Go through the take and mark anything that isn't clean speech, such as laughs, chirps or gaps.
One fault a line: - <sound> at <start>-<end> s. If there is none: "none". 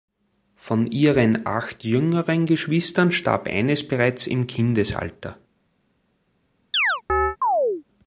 - chirp at 6.7-7.8 s